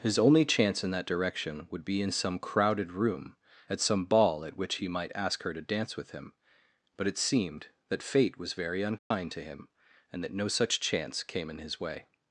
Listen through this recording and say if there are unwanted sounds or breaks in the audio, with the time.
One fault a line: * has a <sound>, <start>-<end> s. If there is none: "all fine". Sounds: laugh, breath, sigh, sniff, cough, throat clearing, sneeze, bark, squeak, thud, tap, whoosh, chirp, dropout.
* has a dropout, 9.0-9.1 s